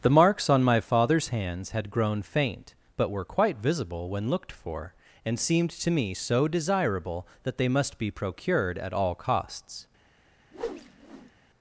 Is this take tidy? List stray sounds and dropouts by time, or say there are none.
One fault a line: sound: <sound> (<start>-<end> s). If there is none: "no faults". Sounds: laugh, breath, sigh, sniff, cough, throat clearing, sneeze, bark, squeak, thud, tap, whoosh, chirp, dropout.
sound: whoosh (10.5-11.3 s)